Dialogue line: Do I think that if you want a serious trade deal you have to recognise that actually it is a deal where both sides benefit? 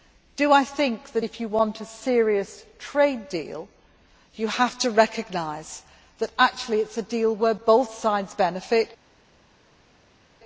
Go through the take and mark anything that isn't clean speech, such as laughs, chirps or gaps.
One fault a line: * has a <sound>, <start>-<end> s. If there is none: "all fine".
all fine